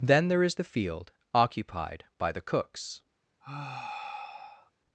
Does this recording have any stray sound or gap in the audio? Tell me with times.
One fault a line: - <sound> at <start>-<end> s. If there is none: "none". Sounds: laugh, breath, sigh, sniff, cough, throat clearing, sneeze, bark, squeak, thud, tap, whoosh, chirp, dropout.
- sigh at 3.4-4.7 s